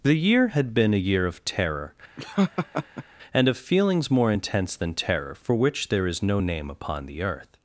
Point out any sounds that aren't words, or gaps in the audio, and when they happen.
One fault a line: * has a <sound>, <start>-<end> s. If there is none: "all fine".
* has a laugh, 2.2-3.0 s